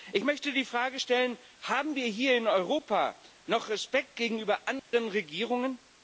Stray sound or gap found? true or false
true